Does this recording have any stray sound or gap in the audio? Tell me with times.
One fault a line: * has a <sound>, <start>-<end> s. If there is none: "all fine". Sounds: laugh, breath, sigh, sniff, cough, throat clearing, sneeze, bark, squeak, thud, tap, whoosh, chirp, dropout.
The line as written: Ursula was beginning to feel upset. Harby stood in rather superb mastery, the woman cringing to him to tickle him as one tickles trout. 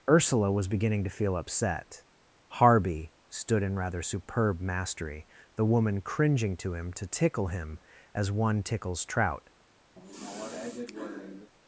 * has a sigh, 10.0-11.5 s